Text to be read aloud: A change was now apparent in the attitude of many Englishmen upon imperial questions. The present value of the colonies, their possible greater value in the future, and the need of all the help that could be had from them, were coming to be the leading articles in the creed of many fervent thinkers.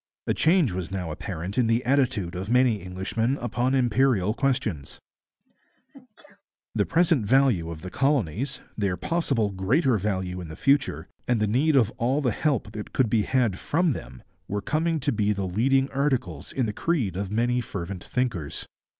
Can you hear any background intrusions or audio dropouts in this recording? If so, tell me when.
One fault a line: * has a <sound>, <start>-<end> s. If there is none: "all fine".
* has a sneeze, 5.4-6.4 s